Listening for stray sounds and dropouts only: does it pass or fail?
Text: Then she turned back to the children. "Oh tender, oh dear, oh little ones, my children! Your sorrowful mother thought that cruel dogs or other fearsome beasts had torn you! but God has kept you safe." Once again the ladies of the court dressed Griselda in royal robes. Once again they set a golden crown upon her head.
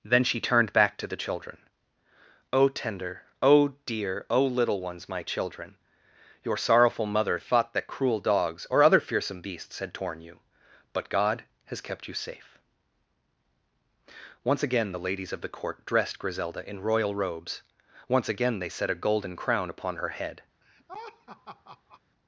fail